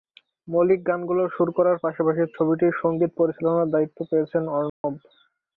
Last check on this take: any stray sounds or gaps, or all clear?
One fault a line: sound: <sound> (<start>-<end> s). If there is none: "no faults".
sound: dropout (4.7-4.8 s)